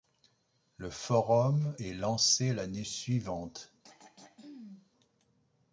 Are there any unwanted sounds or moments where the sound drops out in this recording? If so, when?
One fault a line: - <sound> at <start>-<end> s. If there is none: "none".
- throat clearing at 3.8-4.9 s